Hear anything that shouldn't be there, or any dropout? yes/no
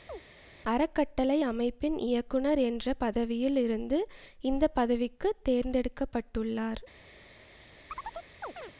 yes